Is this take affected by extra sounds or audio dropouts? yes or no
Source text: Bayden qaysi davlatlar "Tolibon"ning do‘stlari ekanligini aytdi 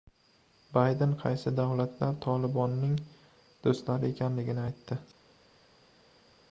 no